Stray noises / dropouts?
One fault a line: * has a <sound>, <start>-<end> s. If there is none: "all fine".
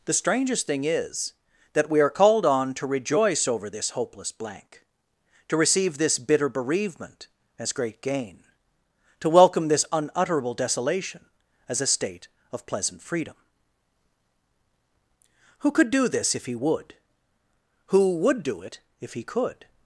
all fine